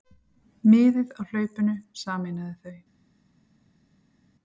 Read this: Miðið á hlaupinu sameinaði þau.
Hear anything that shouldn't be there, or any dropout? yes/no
no